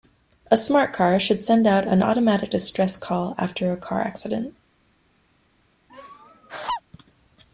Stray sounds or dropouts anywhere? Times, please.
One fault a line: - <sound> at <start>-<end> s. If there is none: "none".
- laugh at 5.9-6.8 s